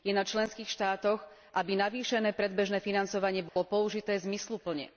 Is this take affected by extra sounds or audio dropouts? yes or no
yes